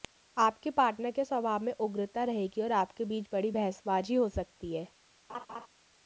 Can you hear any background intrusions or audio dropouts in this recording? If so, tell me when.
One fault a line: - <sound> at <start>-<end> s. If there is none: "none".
- laugh at 5.3-5.7 s